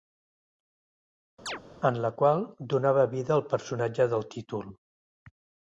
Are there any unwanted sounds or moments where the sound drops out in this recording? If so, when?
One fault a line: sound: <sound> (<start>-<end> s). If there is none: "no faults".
sound: chirp (1.5-1.6 s)